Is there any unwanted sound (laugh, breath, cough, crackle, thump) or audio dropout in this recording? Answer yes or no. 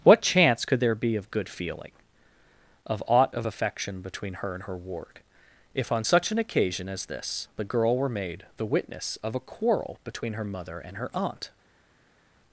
no